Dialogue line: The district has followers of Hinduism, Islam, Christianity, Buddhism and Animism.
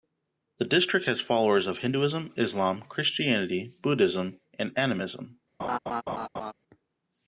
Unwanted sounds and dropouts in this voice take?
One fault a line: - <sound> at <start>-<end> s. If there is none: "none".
- laugh at 5.6-6.5 s